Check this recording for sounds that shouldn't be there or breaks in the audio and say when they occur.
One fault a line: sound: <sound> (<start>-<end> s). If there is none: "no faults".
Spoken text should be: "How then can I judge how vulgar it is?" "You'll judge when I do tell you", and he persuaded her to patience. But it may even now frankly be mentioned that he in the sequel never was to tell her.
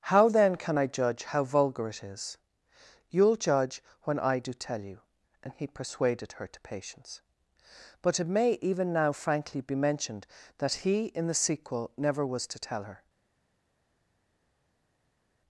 no faults